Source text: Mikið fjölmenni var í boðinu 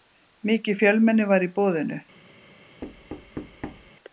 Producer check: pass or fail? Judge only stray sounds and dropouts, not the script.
fail